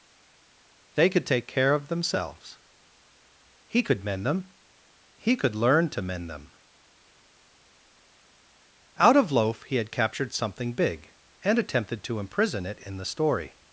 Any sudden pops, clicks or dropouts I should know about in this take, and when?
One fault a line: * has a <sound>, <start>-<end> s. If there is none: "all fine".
all fine